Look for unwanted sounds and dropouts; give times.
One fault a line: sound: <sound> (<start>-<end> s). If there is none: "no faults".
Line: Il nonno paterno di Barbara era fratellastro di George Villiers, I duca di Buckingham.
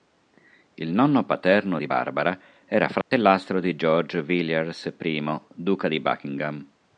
sound: dropout (3.0-3.1 s)